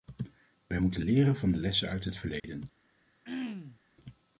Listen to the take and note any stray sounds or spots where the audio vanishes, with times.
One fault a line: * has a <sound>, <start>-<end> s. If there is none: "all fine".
* has a dropout, 2.4-2.4 s
* has a throat clearing, 3.2-3.8 s